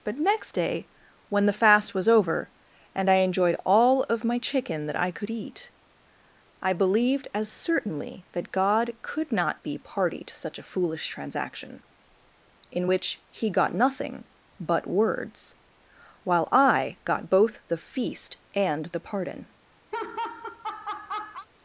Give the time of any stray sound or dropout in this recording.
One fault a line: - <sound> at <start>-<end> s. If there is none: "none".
- laugh at 19.9-21.5 s